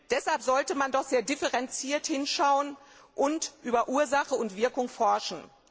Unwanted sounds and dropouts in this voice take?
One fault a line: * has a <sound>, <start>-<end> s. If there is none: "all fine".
all fine